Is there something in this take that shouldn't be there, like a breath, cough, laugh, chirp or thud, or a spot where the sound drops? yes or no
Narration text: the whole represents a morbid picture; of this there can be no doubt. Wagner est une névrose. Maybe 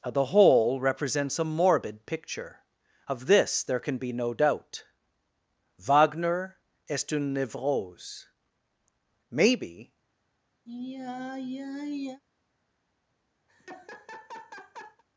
yes